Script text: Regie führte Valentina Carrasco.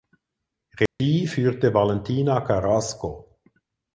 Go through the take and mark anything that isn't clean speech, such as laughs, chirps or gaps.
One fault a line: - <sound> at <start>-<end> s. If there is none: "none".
- dropout at 0.9-1.0 s